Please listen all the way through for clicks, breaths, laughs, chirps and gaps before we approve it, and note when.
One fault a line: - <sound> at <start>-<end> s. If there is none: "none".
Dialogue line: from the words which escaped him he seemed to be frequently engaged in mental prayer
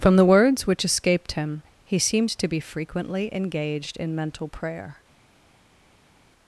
none